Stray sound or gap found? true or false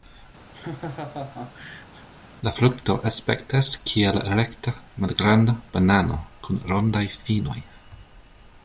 true